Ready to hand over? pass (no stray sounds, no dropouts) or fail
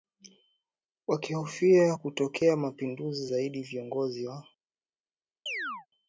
fail